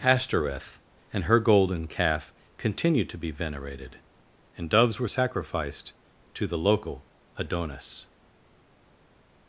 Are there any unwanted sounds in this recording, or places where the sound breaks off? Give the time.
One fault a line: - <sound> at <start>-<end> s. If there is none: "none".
none